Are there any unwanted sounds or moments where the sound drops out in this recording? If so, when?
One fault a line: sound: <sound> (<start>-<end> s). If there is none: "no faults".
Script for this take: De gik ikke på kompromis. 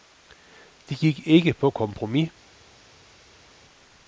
no faults